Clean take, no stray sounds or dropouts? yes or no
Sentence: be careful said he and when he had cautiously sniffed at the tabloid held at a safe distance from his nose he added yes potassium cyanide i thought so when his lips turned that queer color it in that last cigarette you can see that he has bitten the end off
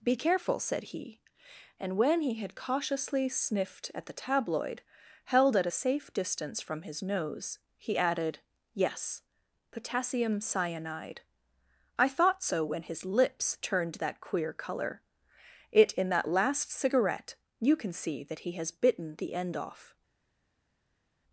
yes